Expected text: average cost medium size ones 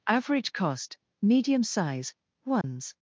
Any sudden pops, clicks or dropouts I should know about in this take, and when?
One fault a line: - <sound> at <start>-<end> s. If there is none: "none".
- dropout at 2.6-2.6 s